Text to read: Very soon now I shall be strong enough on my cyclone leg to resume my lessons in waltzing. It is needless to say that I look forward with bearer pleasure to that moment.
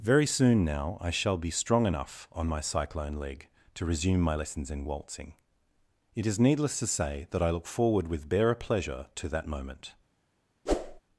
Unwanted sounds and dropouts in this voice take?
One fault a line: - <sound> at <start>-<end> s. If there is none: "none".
- whoosh at 10.7-11.0 s